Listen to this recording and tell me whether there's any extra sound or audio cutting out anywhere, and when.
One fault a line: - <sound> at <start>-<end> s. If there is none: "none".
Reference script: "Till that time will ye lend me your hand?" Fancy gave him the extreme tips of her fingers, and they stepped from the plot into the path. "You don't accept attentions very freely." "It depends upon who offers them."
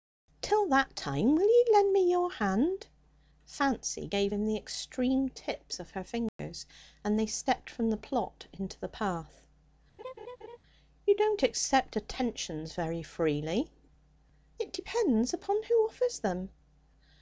- dropout at 6.3-6.4 s
- laugh at 10.0-10.6 s